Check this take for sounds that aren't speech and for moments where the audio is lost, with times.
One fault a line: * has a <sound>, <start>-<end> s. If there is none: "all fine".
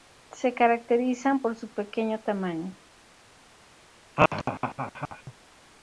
* has a laugh, 4.2-5.3 s